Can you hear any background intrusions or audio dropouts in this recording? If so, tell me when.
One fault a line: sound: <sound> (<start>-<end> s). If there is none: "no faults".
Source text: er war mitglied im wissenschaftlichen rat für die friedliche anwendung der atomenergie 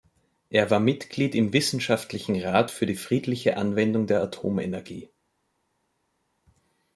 no faults